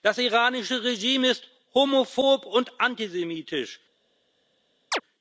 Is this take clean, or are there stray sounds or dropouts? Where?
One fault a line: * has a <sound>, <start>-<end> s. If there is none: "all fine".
* has a chirp, 4.9-5.0 s